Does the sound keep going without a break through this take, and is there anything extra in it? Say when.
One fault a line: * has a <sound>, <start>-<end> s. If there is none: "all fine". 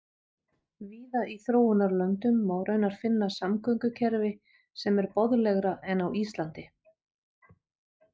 all fine